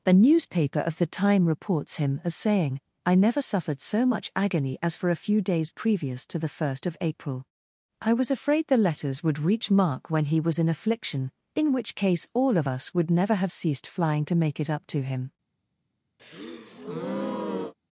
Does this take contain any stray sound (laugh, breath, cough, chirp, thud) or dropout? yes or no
yes